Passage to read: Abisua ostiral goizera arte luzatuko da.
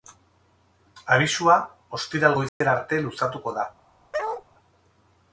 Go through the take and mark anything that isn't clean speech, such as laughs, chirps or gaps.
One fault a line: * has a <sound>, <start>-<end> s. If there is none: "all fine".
* has a dropout, 2.5-2.6 s
* has a bark, 4.1-4.4 s